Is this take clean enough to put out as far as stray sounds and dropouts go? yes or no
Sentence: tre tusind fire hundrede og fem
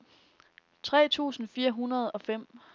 yes